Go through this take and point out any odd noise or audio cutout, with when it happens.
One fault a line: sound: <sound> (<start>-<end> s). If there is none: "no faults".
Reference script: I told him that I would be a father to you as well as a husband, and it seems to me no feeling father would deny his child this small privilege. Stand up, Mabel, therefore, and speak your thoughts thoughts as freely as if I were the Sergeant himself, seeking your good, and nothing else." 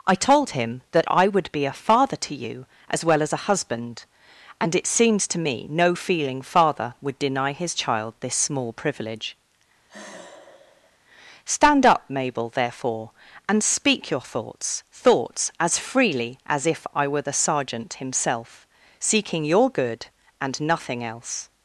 sound: sigh (9.9-11.0 s)